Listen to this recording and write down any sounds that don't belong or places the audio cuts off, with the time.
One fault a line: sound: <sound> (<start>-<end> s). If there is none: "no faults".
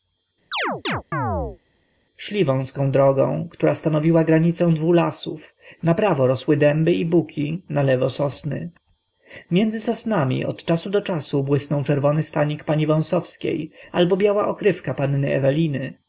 sound: chirp (0.5-1.6 s)